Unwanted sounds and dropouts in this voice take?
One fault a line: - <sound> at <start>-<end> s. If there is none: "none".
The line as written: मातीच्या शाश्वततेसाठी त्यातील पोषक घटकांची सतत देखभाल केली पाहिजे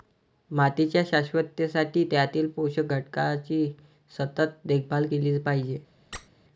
- squeak at 6.1-6.3 s